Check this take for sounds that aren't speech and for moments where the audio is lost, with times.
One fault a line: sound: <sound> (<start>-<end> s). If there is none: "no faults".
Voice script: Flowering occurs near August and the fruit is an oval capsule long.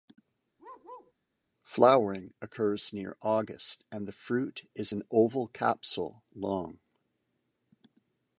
sound: bark (0.6-1.1 s)